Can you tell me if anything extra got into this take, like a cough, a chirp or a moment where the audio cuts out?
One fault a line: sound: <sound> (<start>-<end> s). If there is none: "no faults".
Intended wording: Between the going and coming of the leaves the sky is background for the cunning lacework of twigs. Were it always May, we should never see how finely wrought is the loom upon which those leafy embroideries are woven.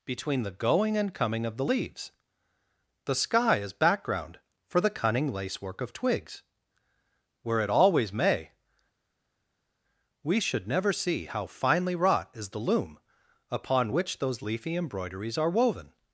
no faults